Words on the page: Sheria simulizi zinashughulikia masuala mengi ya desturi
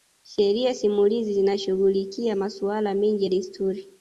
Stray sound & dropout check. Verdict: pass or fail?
pass